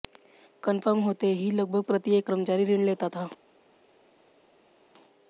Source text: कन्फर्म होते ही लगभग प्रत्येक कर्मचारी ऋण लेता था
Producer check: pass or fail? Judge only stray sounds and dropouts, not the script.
pass